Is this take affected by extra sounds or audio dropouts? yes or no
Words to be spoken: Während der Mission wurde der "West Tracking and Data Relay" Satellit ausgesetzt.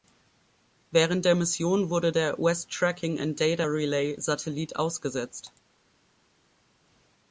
no